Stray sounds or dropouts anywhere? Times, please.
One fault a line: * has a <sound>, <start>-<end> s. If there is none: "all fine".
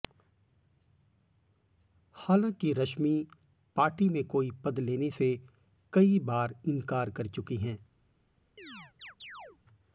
* has a chirp, 8.6-9.6 s